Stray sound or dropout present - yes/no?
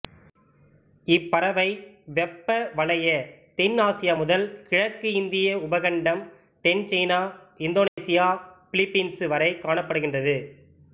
yes